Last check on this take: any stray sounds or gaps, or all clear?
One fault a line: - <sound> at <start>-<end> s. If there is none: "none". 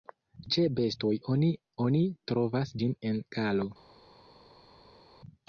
none